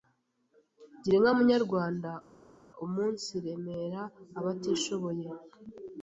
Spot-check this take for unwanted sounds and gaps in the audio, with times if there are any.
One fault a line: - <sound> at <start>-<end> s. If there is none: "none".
none